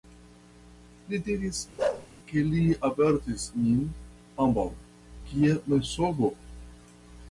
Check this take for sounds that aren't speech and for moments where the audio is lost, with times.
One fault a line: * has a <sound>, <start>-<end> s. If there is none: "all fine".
* has a bark, 1.8-2.1 s